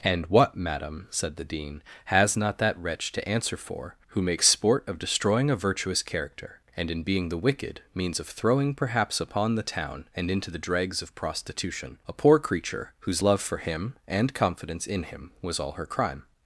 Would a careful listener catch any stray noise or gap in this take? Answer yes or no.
no